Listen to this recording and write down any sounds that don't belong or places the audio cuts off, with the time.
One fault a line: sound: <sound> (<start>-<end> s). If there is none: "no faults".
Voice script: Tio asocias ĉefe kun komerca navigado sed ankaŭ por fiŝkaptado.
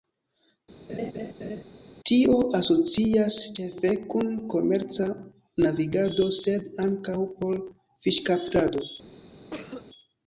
sound: laugh (0.9-1.6 s)
sound: cough (9.5-9.9 s)